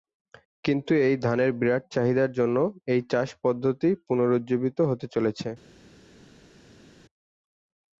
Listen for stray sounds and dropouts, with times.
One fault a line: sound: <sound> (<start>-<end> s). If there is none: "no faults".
no faults